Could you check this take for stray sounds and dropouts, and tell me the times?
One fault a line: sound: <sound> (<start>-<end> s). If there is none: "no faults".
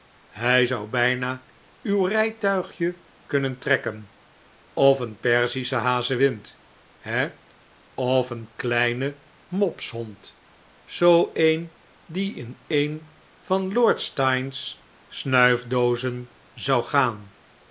no faults